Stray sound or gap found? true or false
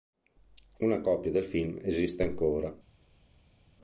false